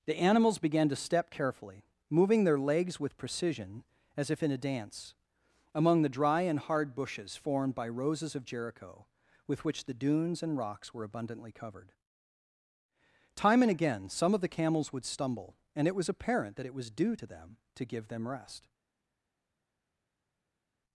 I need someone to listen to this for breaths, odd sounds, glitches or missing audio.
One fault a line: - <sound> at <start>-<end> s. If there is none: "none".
none